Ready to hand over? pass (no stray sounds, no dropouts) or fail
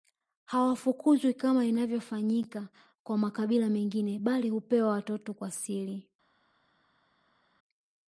pass